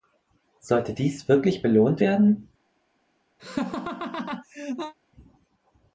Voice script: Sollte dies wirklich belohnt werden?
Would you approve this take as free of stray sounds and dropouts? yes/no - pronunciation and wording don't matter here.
no